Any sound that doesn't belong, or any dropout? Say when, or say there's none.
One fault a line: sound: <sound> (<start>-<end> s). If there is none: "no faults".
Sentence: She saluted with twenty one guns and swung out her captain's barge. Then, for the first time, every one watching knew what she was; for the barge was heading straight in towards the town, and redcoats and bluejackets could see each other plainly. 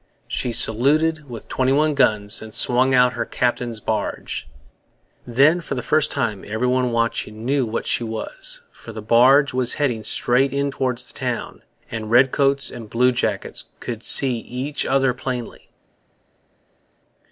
no faults